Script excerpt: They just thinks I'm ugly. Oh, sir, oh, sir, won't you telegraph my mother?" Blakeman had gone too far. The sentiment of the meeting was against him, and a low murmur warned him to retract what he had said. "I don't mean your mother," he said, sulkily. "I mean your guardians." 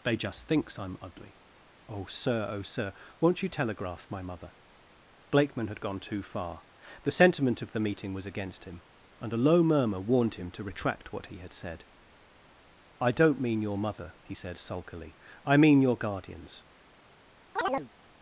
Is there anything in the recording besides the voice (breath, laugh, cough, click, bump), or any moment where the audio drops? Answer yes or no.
yes